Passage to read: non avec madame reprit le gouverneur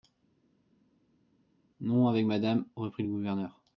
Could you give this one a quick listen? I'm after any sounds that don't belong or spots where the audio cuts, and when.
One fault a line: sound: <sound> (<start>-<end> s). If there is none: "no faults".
no faults